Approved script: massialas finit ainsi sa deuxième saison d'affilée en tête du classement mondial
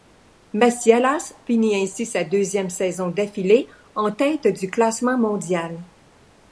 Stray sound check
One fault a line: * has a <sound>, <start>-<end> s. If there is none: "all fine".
all fine